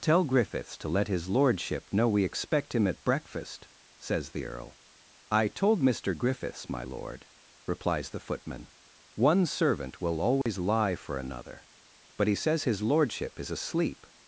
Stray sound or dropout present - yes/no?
yes